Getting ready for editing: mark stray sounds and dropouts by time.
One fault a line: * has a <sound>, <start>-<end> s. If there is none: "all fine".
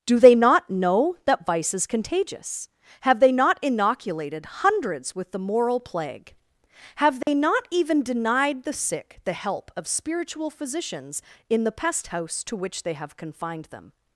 * has a dropout, 7.2-7.3 s